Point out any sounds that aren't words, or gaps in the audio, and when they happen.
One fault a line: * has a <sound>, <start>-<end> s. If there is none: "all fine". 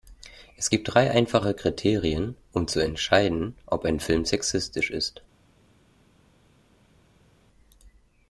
all fine